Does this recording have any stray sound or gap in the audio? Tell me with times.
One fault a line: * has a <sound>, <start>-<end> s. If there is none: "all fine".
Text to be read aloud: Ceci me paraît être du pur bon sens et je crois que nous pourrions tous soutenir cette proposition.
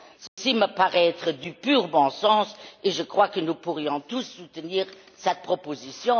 * has a dropout, 0.3-0.4 s